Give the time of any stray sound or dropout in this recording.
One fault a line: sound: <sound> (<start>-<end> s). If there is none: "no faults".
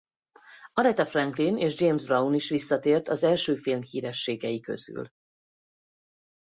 no faults